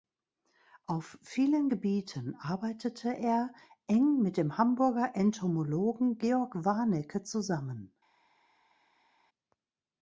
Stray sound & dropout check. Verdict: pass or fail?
pass